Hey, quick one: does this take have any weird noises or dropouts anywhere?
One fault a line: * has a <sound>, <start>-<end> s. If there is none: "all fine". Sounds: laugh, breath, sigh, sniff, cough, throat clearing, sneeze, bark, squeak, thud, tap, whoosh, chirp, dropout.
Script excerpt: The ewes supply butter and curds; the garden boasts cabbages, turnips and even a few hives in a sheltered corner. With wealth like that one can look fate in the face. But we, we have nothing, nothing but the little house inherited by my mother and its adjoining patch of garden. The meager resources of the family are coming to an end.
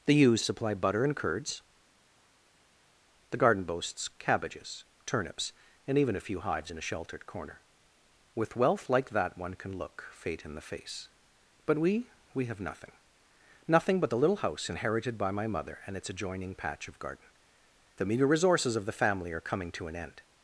all fine